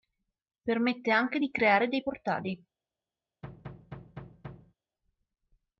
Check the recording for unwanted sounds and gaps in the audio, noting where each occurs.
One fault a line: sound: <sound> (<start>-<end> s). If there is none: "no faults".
sound: thud (3.4-4.7 s)